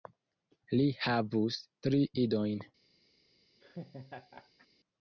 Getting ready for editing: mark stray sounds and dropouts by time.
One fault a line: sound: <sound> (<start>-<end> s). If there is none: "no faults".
sound: laugh (3.6-4.7 s)